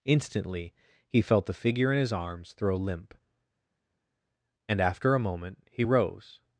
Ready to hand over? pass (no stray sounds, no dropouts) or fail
pass